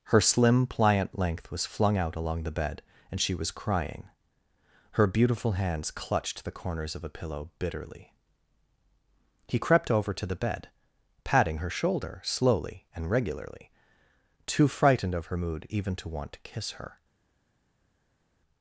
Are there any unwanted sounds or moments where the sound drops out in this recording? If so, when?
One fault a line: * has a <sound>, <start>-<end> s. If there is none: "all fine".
all fine